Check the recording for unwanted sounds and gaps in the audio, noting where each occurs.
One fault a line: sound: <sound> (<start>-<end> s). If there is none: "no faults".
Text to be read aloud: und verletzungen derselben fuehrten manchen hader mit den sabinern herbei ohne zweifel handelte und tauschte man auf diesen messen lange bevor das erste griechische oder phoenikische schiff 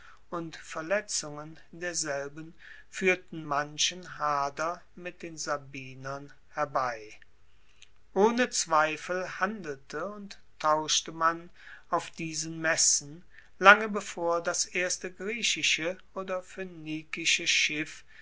no faults